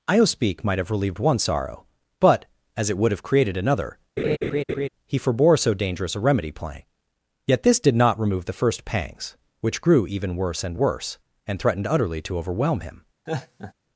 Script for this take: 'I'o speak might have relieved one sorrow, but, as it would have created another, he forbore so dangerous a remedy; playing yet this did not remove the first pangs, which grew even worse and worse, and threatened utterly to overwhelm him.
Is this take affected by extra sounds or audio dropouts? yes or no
yes